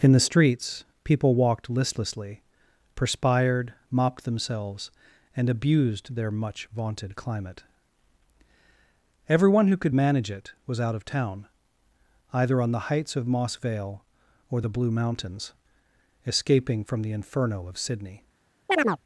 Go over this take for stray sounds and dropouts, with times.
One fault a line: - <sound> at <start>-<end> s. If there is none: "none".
- chirp at 18.7-19.0 s